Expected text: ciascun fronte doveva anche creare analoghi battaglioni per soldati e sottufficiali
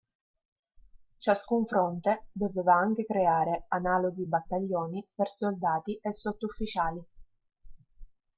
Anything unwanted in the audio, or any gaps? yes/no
no